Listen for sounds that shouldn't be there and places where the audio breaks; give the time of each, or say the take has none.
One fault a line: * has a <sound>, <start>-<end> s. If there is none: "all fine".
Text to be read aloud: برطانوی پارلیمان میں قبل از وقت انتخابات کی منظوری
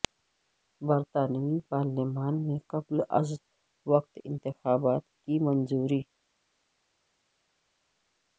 all fine